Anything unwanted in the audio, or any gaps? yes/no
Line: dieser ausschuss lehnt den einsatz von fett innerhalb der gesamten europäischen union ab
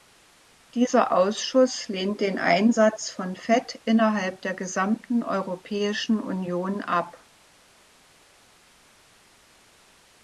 no